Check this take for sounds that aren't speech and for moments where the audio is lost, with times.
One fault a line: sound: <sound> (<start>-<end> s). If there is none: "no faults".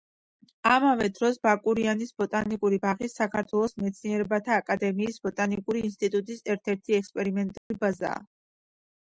sound: dropout (7.6-7.7 s)